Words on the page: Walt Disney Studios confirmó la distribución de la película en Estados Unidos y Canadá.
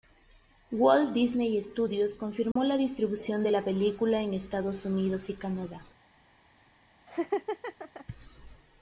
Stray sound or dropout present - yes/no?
yes